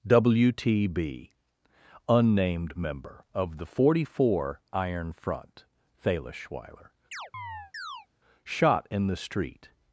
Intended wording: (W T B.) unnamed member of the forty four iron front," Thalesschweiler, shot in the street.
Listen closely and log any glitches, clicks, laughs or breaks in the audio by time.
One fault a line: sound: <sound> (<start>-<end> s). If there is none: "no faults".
sound: chirp (7.1-8.1 s)